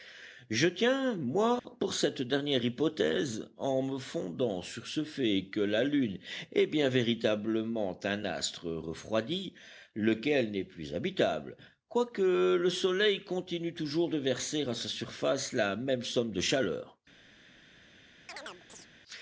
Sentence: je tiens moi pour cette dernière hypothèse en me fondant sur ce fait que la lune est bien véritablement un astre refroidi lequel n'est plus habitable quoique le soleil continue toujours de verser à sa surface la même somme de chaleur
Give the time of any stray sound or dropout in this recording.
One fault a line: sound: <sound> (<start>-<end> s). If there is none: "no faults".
sound: dropout (1.6-1.6 s)
sound: chirp (18.3-18.9 s)